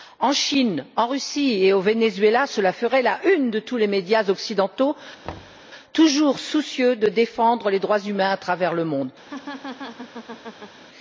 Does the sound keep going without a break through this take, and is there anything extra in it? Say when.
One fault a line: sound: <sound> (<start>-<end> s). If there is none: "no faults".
sound: thud (5.2-5.6 s)
sound: laugh (9.2-10.8 s)